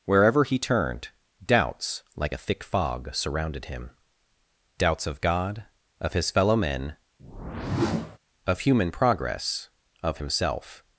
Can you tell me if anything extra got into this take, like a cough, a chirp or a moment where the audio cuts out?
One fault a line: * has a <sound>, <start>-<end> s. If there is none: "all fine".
* has a whoosh, 7.2-8.2 s